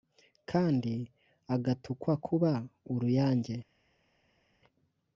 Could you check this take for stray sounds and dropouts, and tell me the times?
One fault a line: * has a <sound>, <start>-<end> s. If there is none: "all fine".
all fine